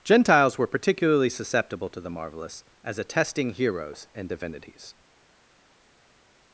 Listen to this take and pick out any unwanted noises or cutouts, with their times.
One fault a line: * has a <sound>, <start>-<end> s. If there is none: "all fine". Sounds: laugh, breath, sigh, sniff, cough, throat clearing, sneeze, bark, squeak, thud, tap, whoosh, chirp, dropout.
all fine